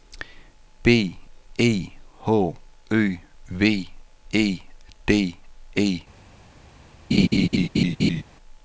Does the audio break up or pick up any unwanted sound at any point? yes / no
yes